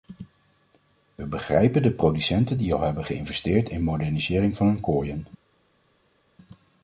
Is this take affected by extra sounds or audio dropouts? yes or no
no